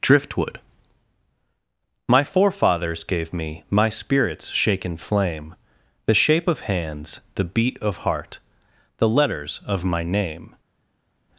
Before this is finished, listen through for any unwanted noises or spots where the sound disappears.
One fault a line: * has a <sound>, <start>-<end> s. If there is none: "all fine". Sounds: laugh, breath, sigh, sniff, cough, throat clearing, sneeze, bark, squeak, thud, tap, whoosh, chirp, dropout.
all fine